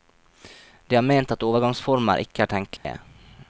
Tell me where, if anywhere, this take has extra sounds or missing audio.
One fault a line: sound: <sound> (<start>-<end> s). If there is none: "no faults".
sound: dropout (2.8-2.8 s)